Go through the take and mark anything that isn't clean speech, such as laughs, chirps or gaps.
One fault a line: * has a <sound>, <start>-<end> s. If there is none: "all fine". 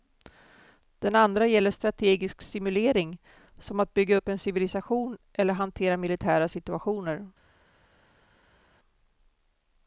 all fine